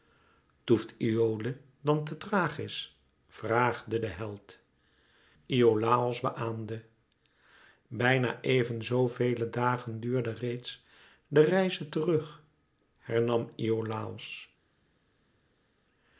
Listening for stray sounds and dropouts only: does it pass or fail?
pass